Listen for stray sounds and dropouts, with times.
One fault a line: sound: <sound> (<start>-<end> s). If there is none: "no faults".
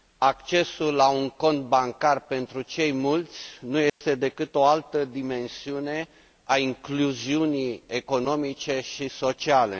sound: dropout (3.9-4.0 s)